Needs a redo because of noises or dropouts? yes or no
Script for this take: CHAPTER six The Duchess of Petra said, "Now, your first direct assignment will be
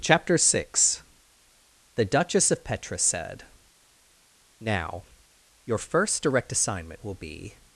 no